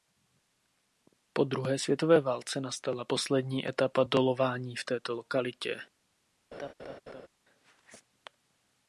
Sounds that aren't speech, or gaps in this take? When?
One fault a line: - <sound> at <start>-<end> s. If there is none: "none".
- laugh at 6.5-7.3 s